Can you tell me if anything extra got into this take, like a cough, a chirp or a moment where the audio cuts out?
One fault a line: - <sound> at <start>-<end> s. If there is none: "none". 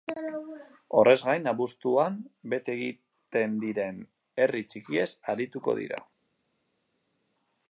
none